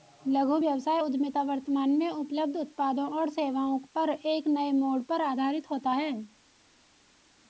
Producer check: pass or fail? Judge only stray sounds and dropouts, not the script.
pass